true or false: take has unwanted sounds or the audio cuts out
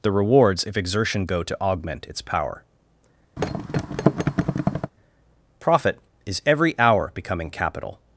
true